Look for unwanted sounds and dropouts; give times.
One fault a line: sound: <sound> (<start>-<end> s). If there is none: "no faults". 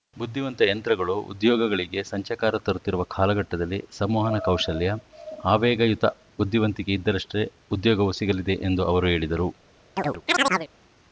sound: chirp (10.0-10.7 s)